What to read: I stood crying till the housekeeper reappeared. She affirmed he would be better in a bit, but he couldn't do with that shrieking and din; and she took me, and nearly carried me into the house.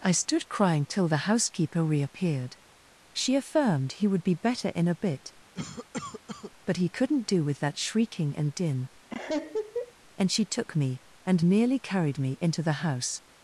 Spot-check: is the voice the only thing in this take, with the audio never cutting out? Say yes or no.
no